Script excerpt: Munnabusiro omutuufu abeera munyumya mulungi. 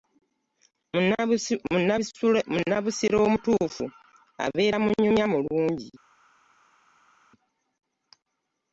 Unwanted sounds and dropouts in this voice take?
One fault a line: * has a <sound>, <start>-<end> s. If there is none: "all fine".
all fine